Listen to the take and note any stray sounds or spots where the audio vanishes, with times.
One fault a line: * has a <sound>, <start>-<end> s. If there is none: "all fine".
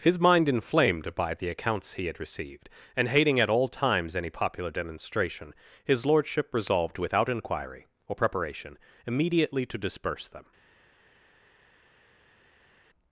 all fine